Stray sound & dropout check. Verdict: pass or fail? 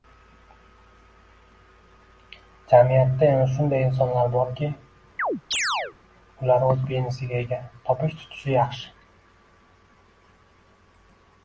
fail